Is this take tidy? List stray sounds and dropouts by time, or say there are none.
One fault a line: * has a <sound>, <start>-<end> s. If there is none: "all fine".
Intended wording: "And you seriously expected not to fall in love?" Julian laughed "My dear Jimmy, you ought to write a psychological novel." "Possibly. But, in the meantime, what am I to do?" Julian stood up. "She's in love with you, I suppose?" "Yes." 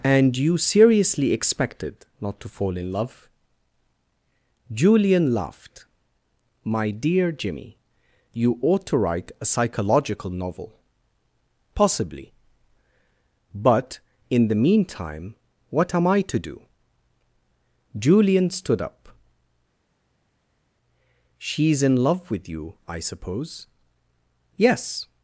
all fine